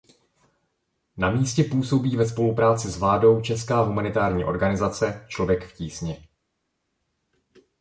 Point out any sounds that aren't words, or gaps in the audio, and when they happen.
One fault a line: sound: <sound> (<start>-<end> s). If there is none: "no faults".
no faults